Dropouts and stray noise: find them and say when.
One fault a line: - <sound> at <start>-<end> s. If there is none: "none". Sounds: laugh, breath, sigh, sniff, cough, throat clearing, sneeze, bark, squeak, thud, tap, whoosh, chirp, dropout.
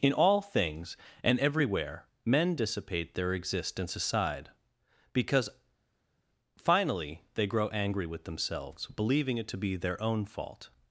none